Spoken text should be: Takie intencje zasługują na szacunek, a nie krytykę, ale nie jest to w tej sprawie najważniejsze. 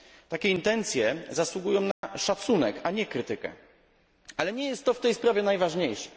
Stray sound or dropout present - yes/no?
yes